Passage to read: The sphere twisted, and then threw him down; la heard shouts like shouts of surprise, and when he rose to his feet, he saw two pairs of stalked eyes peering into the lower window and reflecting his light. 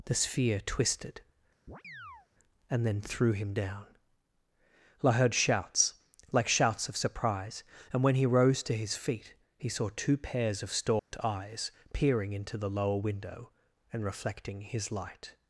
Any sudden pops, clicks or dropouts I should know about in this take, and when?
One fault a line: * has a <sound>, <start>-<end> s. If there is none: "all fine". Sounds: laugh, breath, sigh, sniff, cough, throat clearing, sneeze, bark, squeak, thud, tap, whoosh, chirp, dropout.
* has a chirp, 1.7-2.3 s
* has a dropout, 11.0-11.1 s